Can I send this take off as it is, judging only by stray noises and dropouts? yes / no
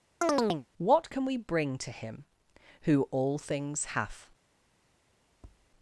no